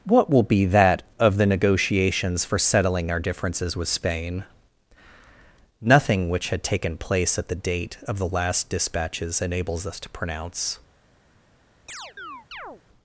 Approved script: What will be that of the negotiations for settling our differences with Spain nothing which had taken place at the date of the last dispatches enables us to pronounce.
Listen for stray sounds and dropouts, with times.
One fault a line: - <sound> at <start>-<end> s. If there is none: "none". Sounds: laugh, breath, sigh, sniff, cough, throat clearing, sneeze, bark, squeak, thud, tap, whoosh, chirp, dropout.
- chirp at 11.9-12.8 s